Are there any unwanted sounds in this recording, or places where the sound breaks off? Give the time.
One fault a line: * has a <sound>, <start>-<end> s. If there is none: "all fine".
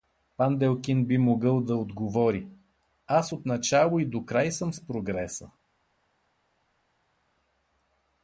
all fine